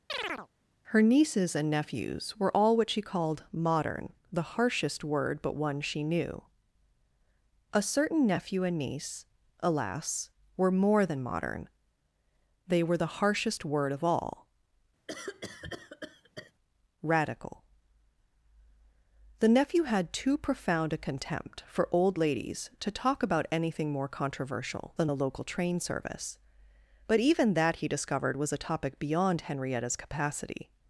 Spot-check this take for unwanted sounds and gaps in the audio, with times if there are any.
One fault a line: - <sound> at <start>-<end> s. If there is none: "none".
- chirp at 0.1-0.5 s
- cough at 15.1-16.5 s